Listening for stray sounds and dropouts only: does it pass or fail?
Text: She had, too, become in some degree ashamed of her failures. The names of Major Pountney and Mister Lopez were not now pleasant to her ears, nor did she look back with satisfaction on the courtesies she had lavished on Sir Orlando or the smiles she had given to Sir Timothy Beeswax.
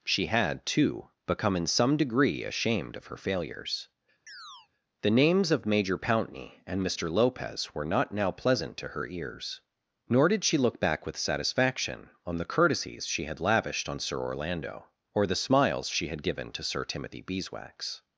fail